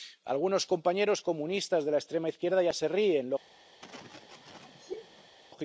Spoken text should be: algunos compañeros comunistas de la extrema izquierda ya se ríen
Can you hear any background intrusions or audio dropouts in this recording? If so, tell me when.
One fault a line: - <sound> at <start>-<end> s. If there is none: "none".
- sneeze at 3.8-5.4 s